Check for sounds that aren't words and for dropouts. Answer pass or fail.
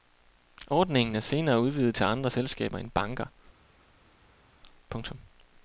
pass